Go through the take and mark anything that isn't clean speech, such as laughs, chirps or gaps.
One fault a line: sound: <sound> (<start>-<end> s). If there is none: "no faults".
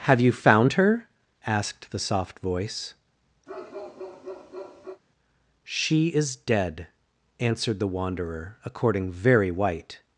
sound: bark (3.5-5.0 s)